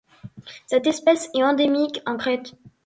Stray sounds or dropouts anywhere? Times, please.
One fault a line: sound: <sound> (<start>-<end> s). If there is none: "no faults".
no faults